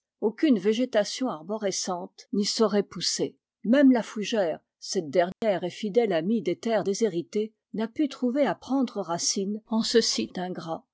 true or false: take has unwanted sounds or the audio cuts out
true